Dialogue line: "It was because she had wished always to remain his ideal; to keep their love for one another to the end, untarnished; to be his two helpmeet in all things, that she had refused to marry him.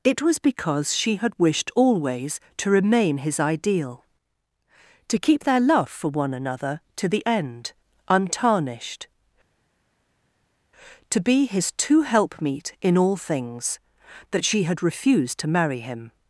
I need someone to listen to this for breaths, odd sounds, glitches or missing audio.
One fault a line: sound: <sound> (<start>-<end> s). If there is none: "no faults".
no faults